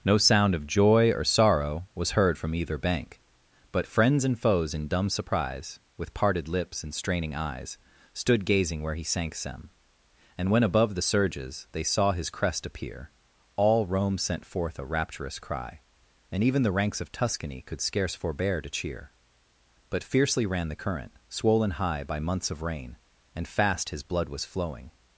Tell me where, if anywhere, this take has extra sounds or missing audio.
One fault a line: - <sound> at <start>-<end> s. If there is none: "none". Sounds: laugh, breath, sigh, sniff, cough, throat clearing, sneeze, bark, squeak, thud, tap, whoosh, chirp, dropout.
none